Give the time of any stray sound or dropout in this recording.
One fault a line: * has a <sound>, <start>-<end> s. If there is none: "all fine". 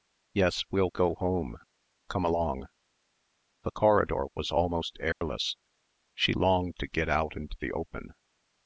* has a dropout, 5.1-5.2 s